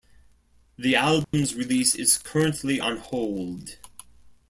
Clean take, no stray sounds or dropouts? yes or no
no